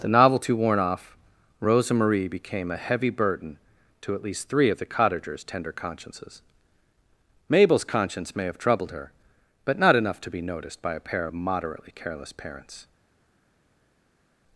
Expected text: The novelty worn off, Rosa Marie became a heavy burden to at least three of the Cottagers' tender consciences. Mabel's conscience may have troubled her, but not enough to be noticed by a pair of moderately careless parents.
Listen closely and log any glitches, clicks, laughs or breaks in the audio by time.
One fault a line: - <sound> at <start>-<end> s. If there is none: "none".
none